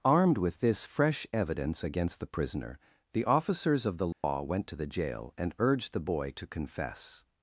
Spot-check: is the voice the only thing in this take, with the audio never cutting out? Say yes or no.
no